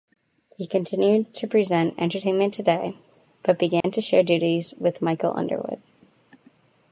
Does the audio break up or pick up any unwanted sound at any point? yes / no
yes